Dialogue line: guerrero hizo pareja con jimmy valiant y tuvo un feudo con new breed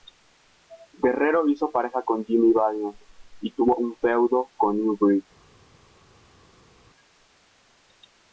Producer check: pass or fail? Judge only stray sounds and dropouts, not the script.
pass